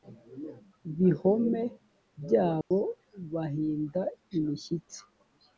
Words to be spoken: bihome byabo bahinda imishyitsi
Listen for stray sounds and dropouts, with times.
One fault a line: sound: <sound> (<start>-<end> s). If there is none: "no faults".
sound: dropout (2.6-2.7 s)